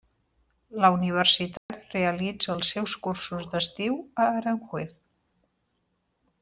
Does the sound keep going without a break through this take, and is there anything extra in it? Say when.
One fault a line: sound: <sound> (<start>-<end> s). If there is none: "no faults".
sound: dropout (1.6-1.7 s)